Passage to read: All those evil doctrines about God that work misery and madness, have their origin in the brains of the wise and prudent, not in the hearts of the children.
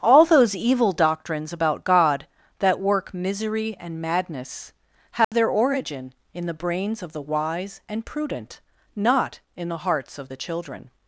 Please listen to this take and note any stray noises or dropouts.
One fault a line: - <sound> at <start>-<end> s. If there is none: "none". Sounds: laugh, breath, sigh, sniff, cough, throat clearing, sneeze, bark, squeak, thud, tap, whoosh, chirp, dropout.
- dropout at 5.2-5.3 s